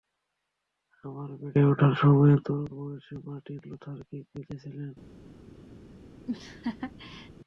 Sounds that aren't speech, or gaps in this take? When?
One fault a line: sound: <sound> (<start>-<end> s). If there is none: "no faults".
sound: laugh (6.3-7.3 s)